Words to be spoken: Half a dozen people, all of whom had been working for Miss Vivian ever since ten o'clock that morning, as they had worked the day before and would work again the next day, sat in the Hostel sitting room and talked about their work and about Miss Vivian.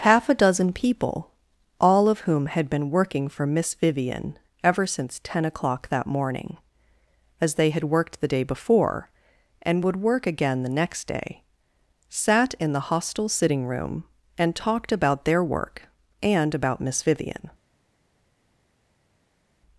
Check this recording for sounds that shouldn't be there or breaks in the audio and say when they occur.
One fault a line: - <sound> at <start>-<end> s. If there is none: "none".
none